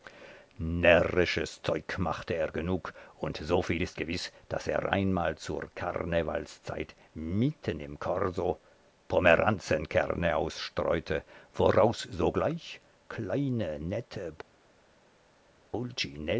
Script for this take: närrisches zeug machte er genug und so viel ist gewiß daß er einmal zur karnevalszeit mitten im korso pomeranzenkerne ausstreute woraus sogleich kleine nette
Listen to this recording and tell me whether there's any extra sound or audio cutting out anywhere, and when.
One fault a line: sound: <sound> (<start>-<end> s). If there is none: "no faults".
no faults